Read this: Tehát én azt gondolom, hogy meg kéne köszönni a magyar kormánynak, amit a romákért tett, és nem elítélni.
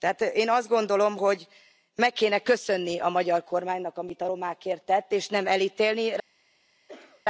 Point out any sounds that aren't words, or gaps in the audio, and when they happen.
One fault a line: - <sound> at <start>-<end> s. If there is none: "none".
- cough at 6.9-7.2 s